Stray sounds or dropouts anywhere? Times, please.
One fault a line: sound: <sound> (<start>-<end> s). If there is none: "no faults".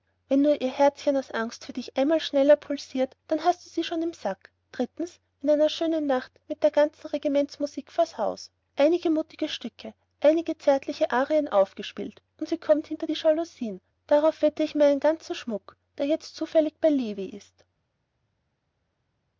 no faults